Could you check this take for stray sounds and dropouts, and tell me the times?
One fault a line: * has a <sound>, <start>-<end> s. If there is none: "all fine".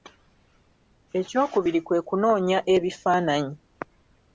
all fine